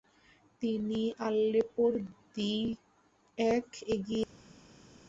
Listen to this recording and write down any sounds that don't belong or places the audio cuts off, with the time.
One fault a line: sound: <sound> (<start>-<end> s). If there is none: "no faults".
no faults